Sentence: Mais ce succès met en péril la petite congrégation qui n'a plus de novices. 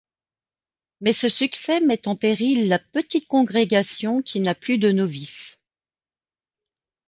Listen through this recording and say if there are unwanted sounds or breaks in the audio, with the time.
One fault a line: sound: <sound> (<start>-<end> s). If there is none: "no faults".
no faults